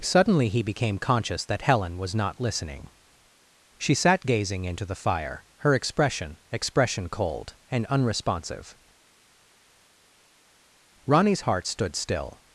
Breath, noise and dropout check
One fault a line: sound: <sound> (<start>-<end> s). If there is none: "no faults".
no faults